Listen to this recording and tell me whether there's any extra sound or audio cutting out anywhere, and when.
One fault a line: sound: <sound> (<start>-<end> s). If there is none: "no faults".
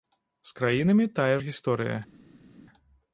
no faults